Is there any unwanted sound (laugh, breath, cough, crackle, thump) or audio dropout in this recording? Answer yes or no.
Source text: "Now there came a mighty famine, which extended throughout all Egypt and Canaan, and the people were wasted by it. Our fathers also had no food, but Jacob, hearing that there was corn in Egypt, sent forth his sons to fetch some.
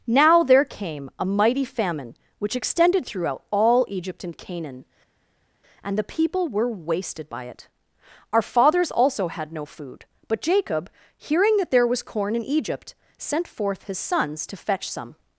no